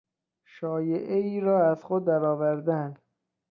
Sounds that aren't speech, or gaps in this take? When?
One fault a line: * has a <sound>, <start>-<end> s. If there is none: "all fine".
all fine